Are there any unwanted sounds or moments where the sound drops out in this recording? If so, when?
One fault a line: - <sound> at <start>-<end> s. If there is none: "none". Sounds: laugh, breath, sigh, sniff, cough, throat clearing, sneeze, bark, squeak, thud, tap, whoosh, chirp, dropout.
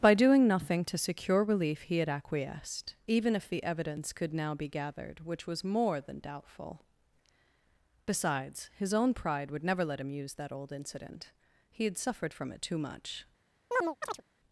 - chirp at 13.7-14.2 s